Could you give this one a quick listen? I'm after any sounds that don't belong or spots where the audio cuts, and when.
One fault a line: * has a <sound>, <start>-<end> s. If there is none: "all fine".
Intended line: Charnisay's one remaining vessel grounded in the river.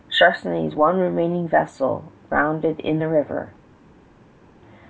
all fine